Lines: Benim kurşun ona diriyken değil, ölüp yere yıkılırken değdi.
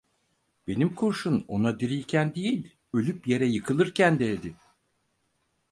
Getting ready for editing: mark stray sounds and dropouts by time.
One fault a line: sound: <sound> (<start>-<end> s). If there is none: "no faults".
no faults